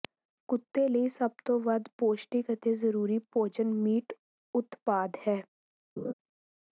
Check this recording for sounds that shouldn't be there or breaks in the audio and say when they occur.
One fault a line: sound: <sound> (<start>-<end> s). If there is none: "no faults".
sound: laugh (6.0-6.1 s)